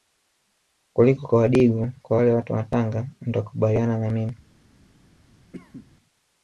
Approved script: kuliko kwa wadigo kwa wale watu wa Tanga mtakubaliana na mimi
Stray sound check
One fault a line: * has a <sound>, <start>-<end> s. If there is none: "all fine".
* has a cough, 5.5-5.9 s